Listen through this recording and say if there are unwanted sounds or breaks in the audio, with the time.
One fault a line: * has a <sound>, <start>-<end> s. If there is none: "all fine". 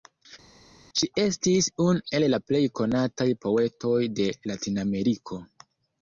all fine